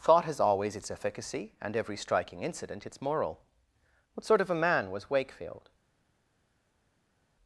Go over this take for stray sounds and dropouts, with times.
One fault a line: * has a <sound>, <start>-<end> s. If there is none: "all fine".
all fine